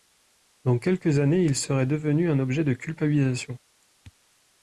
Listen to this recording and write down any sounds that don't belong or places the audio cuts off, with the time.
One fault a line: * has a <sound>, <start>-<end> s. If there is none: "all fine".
all fine